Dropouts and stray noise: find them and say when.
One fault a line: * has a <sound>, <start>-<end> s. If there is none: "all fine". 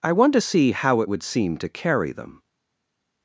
all fine